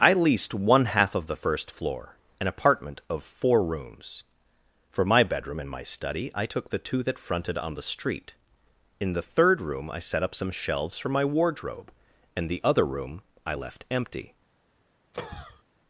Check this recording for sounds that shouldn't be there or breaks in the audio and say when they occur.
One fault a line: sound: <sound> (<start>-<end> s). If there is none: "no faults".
sound: cough (15.1-15.6 s)